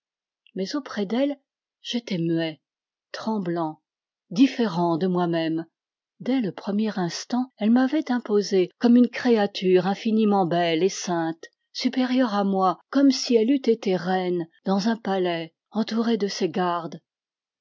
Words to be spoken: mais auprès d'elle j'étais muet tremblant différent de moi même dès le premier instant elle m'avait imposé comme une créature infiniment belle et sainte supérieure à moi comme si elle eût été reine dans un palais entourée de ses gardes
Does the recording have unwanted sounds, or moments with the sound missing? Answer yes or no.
no